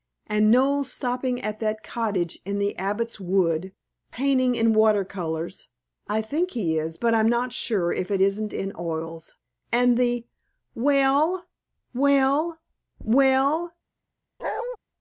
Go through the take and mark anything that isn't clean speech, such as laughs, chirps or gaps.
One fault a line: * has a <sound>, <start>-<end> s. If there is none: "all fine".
* has a bark, 14.4-14.8 s